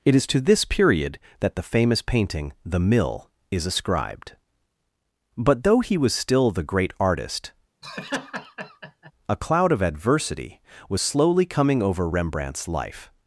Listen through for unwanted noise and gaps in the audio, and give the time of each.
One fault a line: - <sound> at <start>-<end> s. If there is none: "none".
- laugh at 7.8-9.1 s